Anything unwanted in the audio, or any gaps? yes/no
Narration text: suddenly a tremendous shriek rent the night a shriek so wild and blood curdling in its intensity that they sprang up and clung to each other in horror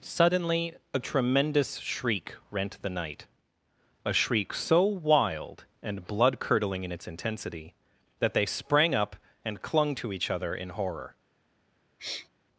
yes